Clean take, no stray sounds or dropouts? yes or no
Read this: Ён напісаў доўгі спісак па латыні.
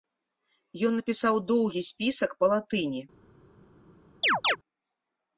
no